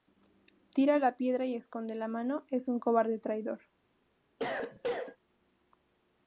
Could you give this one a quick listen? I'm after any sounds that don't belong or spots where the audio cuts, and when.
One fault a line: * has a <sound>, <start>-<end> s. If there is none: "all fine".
* has a cough, 4.4-5.2 s